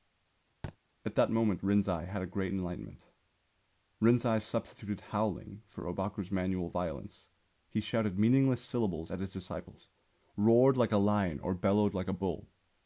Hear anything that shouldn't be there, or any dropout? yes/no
yes